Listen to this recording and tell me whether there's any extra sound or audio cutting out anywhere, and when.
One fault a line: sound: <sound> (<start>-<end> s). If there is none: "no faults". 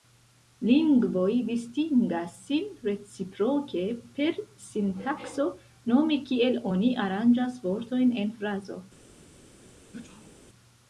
sound: sneeze (9.9-10.4 s)